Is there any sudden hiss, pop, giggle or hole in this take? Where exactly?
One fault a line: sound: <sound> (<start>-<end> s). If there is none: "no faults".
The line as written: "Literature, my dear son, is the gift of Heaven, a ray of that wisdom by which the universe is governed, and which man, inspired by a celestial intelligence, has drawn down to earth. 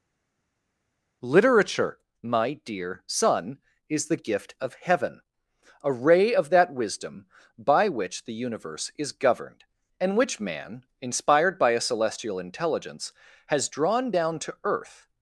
no faults